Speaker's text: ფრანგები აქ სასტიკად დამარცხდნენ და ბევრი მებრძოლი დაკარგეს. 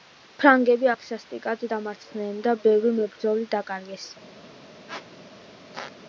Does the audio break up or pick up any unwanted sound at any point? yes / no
yes